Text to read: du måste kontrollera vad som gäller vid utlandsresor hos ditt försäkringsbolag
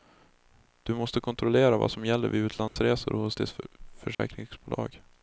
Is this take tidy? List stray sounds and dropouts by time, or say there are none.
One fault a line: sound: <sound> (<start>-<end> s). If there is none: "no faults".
sound: dropout (2.7-2.8 s)
sound: dropout (4.1-4.2 s)